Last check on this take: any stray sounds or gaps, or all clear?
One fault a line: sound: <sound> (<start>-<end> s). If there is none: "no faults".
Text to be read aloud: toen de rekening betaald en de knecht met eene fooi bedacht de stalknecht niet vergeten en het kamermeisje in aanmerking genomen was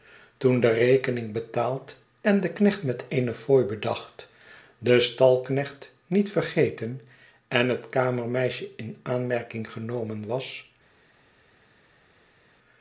no faults